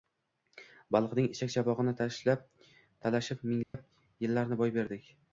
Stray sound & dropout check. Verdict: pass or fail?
fail